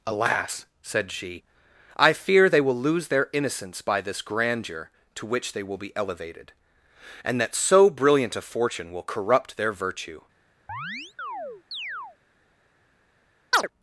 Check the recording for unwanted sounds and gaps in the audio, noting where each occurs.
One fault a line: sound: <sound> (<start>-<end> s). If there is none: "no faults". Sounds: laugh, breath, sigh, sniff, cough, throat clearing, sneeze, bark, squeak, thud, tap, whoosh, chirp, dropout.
sound: chirp (10.7-12.2 s)
sound: chirp (13.5-13.7 s)